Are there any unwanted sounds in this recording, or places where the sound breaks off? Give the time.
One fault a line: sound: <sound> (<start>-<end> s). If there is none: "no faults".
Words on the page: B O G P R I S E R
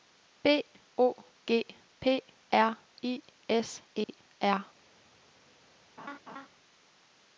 sound: dropout (4.0-4.1 s)
sound: laugh (6.0-6.5 s)